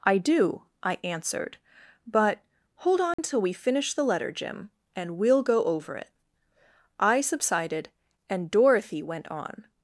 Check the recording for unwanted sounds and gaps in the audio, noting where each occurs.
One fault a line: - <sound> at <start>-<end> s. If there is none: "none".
- dropout at 3.1-3.2 s